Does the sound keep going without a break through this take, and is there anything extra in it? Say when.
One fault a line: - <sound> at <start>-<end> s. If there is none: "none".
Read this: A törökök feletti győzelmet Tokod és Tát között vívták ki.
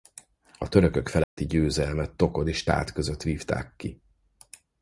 - dropout at 1.2-1.4 s